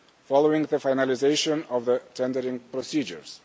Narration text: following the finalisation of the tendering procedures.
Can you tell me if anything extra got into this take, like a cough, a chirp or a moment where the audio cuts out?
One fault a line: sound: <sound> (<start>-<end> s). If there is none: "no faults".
no faults